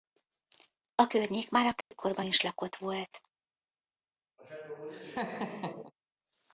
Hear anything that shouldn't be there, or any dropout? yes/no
yes